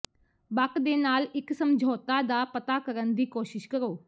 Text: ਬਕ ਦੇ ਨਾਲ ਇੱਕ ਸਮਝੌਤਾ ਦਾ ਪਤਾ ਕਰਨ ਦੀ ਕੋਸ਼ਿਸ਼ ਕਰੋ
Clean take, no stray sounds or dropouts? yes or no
yes